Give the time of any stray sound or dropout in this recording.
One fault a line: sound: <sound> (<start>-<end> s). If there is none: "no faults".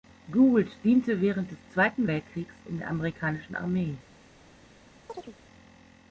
sound: chirp (5.1-5.4 s)